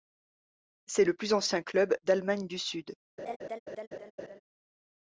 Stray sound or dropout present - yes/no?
yes